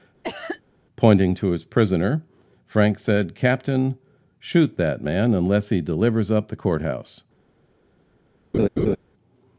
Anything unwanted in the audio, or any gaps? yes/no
yes